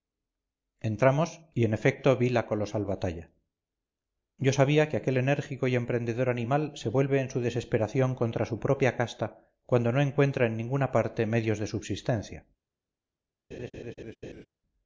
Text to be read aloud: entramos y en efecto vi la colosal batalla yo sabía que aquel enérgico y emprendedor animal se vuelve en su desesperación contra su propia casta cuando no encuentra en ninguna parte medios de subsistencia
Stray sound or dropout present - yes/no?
yes